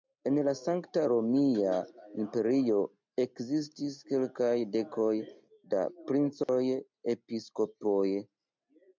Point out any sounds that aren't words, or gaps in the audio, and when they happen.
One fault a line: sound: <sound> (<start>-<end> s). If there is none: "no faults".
sound: dropout (6.4-6.5 s)